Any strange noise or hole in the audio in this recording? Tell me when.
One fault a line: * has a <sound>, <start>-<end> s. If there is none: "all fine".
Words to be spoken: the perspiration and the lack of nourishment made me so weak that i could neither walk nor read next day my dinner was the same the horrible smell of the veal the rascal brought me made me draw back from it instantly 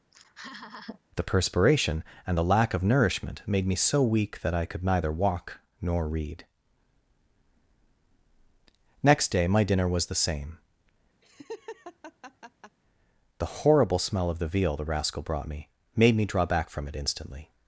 * has a laugh, 0.1-1.0 s
* has a laugh, 11.2-12.8 s